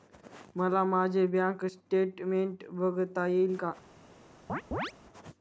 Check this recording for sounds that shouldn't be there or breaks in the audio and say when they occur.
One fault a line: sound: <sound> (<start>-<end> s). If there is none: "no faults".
sound: chirp (4.5-4.9 s)